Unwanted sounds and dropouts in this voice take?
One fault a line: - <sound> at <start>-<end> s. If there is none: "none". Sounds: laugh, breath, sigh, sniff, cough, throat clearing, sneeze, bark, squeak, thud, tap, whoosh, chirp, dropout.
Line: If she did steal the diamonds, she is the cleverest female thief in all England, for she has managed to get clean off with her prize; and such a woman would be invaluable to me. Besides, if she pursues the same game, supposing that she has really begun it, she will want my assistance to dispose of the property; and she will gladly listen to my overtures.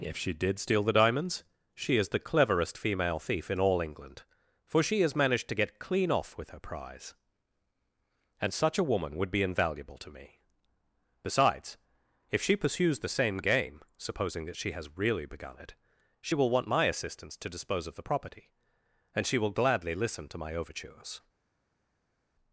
none